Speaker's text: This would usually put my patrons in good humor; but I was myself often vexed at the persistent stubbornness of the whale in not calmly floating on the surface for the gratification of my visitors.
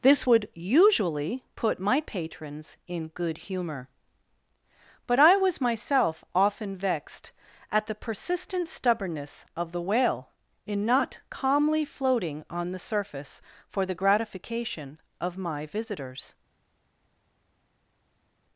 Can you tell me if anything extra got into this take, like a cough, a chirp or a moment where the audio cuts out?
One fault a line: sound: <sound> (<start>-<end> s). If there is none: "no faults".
no faults